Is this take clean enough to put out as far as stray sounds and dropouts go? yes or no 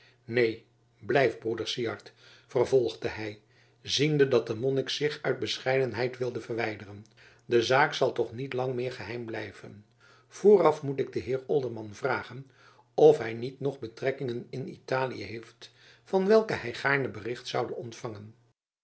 yes